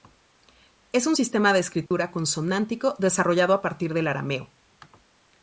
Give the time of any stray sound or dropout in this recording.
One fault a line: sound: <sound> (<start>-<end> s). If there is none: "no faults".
sound: dropout (1.9-1.9 s)